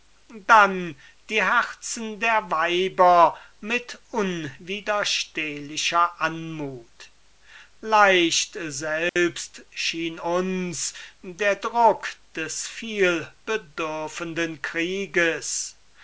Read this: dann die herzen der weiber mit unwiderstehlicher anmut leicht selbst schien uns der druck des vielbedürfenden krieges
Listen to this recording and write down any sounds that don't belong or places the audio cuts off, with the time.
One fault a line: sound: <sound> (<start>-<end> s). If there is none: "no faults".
sound: dropout (9.1-9.2 s)